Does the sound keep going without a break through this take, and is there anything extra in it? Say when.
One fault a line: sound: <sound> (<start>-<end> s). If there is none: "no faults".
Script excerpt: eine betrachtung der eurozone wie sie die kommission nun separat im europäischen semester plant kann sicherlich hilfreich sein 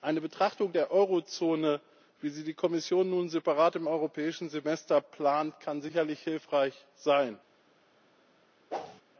sound: whoosh (8.7-9.0 s)